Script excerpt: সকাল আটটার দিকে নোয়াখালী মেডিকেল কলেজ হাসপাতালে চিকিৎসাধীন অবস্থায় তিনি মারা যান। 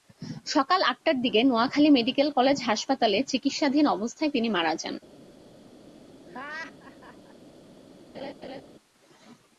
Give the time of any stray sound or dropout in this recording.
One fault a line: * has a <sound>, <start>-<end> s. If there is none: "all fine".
* has a laugh, 6.3-7.4 s
* has a laugh, 8.1-8.6 s